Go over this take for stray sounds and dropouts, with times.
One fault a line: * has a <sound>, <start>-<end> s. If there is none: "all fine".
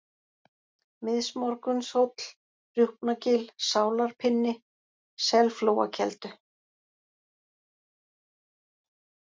all fine